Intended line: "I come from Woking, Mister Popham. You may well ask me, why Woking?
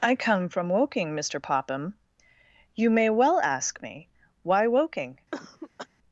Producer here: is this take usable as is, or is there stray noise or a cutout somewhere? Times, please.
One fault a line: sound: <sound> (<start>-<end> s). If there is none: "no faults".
sound: cough (5.3-5.9 s)